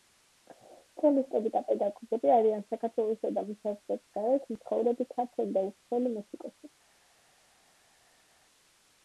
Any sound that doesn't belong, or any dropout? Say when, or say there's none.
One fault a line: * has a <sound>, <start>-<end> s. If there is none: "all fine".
all fine